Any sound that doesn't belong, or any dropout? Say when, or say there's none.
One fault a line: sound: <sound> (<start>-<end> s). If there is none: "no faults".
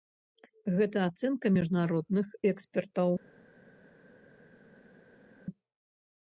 no faults